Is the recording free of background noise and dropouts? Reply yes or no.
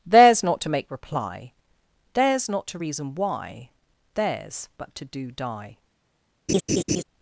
no